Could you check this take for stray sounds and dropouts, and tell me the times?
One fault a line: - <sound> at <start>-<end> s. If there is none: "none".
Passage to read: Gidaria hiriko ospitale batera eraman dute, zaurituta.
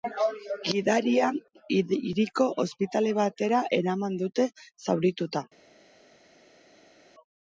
none